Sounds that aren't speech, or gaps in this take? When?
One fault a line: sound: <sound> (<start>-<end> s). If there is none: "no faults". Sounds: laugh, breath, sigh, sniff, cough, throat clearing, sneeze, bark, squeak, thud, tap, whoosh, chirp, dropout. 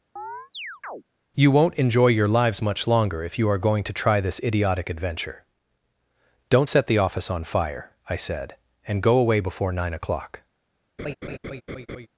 sound: chirp (0.2-1.0 s)
sound: laugh (11.0-12.1 s)